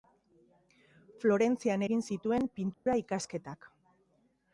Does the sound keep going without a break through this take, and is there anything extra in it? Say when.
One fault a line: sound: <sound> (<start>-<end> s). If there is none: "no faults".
sound: dropout (2.7-2.9 s)